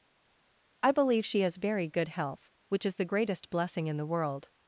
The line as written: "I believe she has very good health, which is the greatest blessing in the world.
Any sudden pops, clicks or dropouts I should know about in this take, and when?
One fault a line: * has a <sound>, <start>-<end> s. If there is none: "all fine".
all fine